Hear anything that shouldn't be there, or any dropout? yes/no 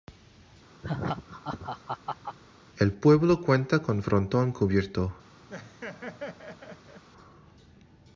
yes